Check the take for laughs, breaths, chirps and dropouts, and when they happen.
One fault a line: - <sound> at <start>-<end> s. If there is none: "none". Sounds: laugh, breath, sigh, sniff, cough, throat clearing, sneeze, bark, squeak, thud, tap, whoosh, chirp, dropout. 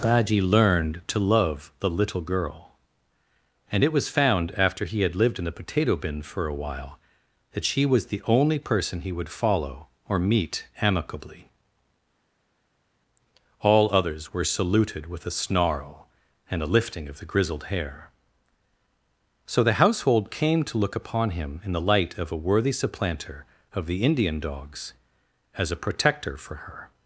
none